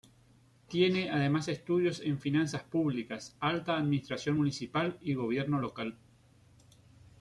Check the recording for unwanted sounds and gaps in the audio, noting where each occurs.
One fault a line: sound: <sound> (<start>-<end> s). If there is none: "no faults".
no faults